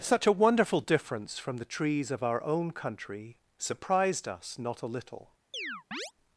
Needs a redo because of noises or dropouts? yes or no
yes